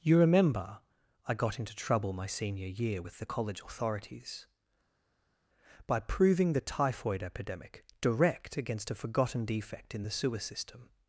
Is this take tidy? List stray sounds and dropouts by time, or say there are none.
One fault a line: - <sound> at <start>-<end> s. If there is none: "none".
none